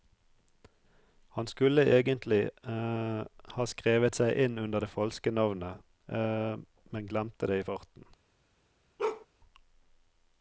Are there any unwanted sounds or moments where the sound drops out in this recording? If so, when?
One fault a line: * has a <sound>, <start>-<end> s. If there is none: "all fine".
* has a bark, 9.0-9.3 s